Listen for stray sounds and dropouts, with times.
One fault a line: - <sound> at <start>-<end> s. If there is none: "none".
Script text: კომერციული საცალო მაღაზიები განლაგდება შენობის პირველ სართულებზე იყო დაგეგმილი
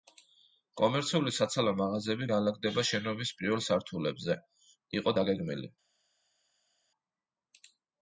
none